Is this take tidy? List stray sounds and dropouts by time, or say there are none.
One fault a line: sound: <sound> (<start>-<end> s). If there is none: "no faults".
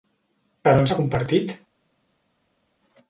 no faults